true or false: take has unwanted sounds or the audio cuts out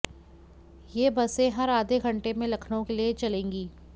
false